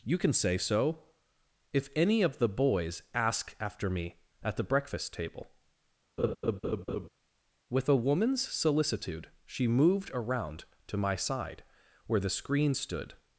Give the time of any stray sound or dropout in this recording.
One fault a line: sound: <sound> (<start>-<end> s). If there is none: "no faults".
sound: laugh (6.2-7.1 s)